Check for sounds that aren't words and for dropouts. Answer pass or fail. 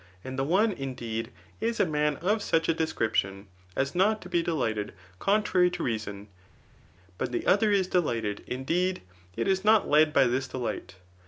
pass